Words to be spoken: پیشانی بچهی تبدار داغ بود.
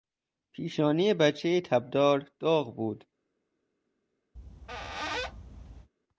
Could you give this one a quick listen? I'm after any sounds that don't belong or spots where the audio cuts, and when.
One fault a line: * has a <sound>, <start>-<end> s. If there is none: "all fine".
* has a squeak, 4.4-5.9 s